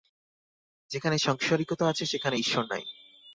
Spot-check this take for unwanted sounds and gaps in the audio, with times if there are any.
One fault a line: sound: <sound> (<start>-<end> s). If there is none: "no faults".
no faults